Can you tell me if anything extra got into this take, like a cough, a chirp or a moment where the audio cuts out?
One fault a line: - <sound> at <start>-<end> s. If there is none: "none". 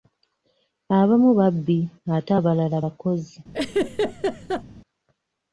- laugh at 3.5-4.6 s